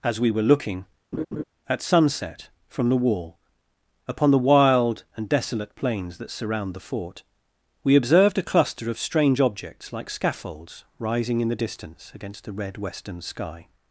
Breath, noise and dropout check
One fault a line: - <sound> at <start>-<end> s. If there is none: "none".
- laugh at 1.1-1.4 s